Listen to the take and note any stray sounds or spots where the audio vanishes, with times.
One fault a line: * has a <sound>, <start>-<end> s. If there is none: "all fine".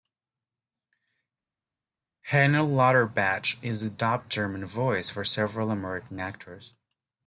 all fine